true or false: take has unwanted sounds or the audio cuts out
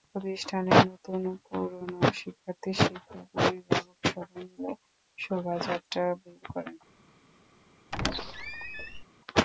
true